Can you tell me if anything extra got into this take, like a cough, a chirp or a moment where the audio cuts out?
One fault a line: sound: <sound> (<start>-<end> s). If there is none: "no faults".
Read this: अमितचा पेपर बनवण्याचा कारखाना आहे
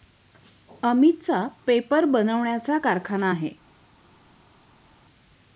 no faults